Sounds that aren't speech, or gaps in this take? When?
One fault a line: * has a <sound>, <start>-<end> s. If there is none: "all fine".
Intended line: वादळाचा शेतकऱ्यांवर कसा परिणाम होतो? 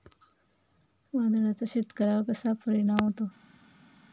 all fine